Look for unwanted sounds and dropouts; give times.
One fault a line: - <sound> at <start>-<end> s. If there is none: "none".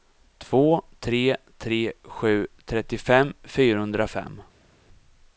none